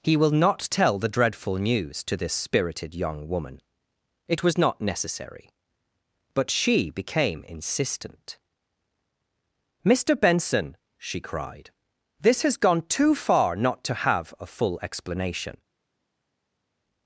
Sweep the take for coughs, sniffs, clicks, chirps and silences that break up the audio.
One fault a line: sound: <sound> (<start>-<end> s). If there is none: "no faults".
no faults